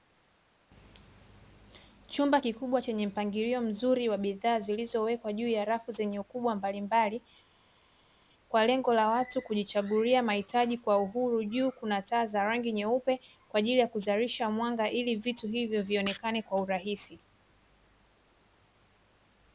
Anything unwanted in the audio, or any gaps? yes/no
no